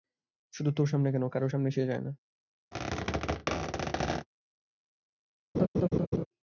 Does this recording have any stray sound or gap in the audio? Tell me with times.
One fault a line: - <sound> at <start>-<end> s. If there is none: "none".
- squeak at 2.7-4.3 s
- laugh at 5.5-6.3 s